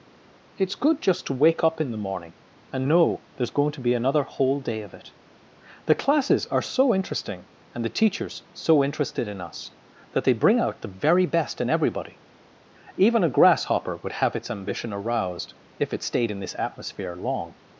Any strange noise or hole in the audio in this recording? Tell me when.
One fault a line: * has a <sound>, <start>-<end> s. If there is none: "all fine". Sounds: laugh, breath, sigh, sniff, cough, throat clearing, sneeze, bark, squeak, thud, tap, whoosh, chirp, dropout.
all fine